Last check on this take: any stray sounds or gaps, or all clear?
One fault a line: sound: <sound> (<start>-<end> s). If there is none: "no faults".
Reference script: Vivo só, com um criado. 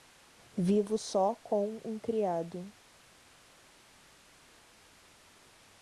no faults